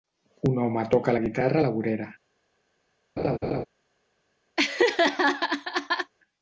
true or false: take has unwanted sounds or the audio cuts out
true